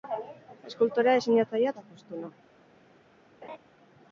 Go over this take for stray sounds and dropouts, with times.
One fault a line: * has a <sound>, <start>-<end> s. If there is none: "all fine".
* has a laugh, 3.4-3.6 s